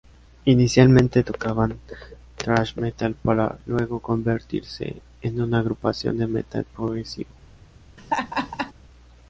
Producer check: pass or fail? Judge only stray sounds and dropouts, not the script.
fail